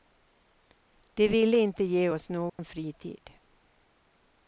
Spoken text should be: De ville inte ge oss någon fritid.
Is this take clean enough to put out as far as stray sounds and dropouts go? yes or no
no